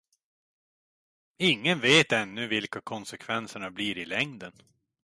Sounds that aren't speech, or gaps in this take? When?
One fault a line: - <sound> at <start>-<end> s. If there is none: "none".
none